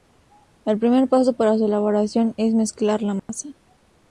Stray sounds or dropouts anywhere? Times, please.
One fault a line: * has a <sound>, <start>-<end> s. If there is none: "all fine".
* has a dropout, 3.2-3.3 s